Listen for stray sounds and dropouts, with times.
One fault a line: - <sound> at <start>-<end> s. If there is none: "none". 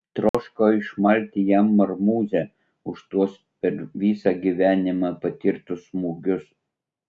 - dropout at 0.3-0.3 s